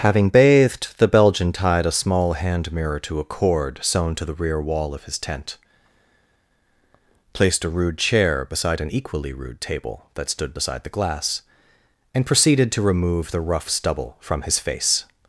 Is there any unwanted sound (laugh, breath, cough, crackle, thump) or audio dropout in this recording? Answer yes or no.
no